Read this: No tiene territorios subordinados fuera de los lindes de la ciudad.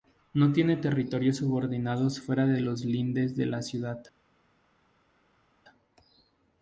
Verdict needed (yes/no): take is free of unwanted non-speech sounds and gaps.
yes